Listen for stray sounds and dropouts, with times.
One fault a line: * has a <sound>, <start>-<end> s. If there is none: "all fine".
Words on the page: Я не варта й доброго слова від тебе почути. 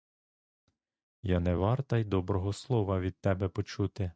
all fine